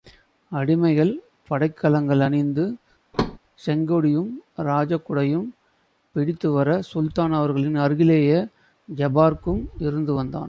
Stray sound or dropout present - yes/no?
yes